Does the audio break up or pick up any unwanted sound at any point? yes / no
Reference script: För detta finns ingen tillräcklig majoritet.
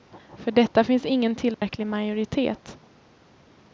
yes